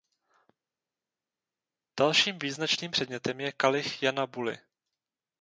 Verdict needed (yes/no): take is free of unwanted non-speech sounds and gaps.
yes